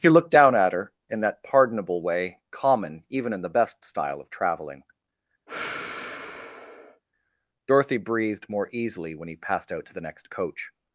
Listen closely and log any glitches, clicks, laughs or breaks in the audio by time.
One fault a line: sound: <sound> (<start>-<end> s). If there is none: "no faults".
sound: sigh (5.5-7.0 s)